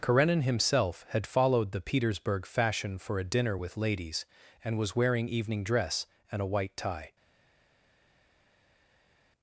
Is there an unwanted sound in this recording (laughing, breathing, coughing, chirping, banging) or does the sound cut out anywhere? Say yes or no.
no